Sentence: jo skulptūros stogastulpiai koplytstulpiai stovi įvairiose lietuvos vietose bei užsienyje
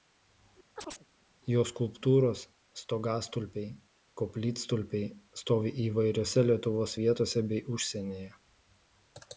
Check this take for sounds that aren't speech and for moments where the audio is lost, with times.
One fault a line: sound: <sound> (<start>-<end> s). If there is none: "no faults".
sound: chirp (0.8-1.1 s)